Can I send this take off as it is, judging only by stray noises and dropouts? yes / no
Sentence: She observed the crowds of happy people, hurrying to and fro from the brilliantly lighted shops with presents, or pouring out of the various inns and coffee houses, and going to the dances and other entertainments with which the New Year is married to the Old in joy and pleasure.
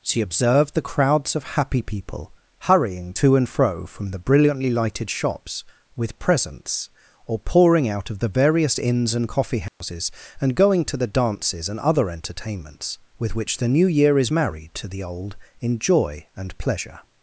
no